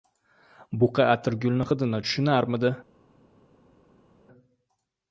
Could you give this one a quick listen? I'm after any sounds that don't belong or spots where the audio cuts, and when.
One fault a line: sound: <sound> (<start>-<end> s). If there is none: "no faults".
no faults